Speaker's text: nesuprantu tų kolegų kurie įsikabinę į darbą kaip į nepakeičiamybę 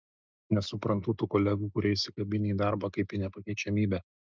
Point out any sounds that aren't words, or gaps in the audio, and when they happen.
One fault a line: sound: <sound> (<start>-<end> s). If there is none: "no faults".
no faults